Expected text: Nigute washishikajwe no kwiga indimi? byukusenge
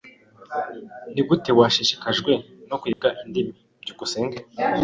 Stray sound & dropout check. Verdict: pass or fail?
fail